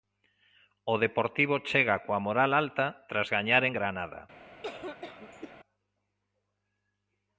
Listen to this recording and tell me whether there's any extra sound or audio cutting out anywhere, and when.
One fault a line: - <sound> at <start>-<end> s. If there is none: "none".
- cough at 4.6-5.5 s